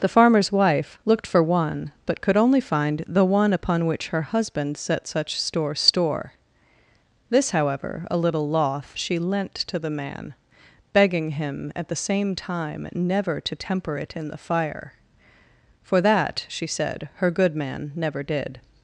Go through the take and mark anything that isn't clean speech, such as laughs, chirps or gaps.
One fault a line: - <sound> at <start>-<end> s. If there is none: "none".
none